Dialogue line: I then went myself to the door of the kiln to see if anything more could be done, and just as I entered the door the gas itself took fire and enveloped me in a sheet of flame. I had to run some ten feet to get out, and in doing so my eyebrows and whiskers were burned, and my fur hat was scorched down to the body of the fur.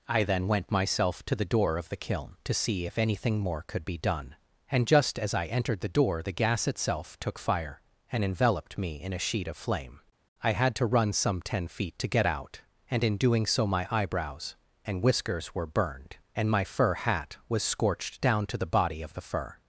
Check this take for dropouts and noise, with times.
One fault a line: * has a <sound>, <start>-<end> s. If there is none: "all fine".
all fine